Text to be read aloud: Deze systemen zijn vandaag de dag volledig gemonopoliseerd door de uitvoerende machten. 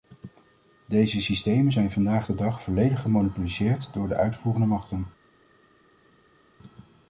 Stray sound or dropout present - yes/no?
no